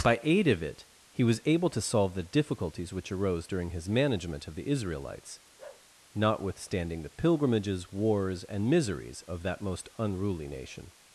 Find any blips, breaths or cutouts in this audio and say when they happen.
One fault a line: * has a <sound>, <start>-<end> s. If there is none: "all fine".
* has a bark, 5.6-5.9 s